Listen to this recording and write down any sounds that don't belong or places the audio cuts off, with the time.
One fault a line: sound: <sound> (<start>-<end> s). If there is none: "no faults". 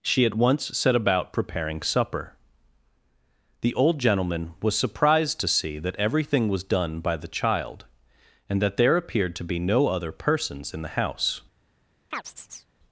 sound: chirp (12.1-12.7 s)